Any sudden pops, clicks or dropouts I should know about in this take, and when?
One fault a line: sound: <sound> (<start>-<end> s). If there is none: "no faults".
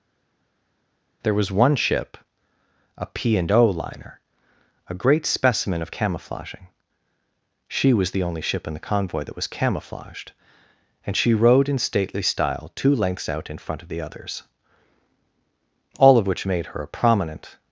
no faults